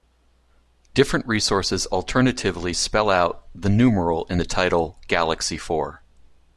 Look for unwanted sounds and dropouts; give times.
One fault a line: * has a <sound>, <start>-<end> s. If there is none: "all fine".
all fine